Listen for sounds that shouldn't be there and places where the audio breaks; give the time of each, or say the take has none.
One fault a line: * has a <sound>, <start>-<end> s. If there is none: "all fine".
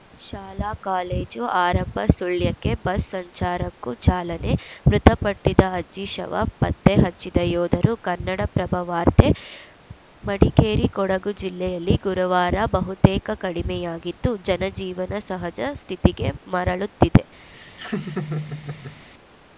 * has a laugh, 17.5-19.0 s